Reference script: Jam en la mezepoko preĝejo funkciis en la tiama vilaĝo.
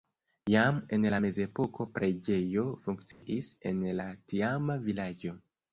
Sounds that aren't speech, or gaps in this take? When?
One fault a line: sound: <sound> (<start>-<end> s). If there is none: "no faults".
sound: dropout (3.1-3.2 s)